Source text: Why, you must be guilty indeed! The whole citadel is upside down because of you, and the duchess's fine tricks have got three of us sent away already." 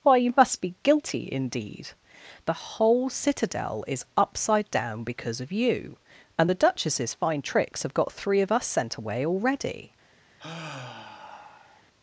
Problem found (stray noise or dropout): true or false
true